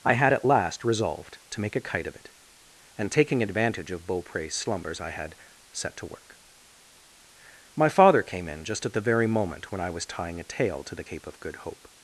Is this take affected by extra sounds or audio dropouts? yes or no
no